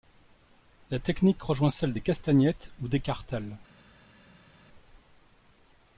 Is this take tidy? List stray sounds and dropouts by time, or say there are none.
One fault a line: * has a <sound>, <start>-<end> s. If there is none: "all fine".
all fine